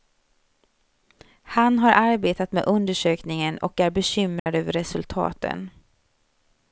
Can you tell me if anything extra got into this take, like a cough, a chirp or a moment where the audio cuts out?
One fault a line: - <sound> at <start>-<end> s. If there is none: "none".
- dropout at 4.4-4.5 s